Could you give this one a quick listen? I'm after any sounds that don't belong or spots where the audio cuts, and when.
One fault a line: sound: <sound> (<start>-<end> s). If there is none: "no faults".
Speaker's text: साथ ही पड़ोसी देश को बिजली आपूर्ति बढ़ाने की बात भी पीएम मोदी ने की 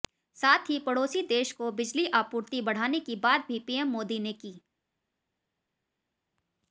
no faults